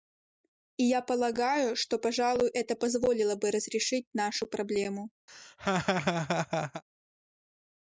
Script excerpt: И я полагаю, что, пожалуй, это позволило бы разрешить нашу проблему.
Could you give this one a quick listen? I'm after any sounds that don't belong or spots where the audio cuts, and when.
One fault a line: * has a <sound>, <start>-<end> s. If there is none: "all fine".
* has a laugh, 5.3-6.8 s